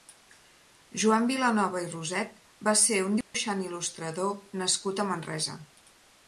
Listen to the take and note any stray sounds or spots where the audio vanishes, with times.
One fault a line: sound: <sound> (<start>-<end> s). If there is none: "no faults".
sound: dropout (3.2-3.3 s)